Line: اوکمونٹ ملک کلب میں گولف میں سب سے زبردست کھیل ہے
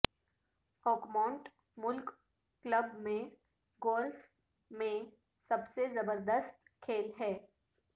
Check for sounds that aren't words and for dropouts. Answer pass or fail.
pass